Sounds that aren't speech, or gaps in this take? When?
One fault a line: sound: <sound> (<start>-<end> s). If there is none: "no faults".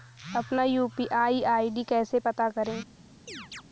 sound: chirp (3.3-3.6 s)